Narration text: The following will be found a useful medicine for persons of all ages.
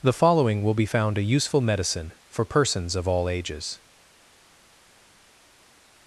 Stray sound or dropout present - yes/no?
no